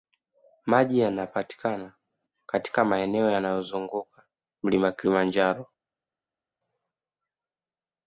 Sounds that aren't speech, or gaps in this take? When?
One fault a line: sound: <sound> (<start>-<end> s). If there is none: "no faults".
no faults